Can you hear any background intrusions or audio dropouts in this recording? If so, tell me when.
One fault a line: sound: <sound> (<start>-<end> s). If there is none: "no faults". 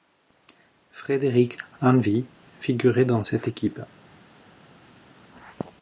no faults